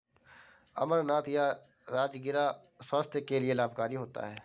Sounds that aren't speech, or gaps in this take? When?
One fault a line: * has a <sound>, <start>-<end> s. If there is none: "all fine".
all fine